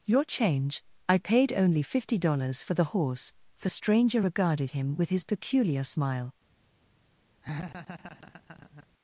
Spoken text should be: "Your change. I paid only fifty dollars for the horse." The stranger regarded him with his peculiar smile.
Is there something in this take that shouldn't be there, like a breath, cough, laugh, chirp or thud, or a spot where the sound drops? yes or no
yes